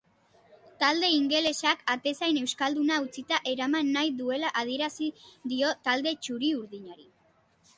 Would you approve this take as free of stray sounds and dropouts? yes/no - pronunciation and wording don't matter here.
yes